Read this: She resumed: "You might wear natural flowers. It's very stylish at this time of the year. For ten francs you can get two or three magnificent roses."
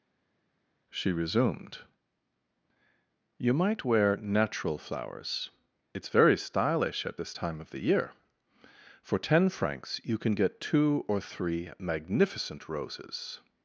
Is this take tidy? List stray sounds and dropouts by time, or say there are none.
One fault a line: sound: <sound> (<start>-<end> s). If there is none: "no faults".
no faults